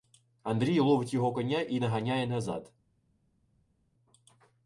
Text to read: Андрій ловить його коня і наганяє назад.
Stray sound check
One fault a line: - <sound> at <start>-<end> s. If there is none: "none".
none